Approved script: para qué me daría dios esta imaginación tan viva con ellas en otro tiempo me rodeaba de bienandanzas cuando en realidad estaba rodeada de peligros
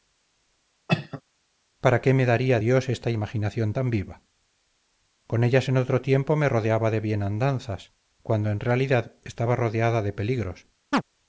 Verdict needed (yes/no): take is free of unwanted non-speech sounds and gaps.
no